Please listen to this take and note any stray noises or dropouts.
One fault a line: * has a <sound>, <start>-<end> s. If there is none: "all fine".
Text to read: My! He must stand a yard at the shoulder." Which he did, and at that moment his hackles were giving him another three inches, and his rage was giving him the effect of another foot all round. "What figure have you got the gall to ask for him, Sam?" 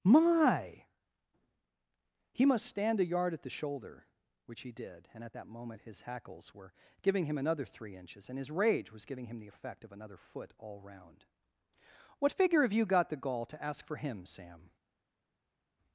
all fine